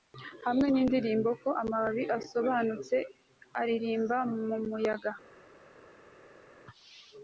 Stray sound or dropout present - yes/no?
no